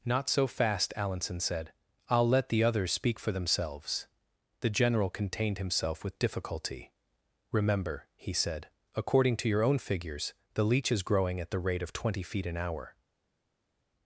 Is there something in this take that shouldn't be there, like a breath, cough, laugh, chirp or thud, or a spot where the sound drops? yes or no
no